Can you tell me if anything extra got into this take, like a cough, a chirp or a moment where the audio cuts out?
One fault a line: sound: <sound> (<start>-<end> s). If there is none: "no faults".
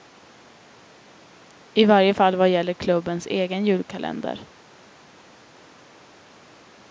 no faults